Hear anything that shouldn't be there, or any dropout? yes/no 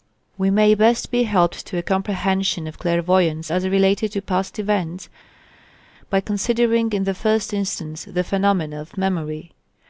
no